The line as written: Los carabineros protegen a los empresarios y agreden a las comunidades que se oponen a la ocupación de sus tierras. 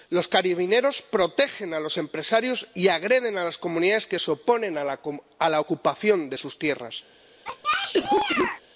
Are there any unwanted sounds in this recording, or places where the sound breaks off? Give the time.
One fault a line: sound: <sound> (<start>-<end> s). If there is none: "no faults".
sound: cough (7.4-8.6 s)